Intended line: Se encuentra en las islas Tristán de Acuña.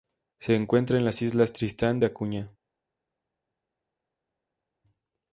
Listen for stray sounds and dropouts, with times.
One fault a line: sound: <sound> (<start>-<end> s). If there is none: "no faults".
no faults